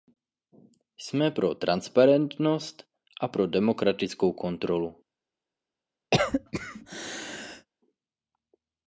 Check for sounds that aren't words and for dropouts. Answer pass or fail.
fail